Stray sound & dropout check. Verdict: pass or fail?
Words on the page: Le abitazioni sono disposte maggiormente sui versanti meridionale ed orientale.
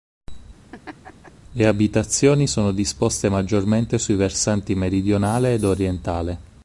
fail